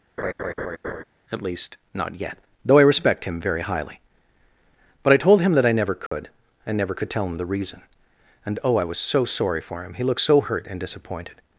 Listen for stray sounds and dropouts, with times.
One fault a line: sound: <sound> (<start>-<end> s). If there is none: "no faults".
sound: laugh (0.2-1.0 s)
sound: dropout (6.1-6.1 s)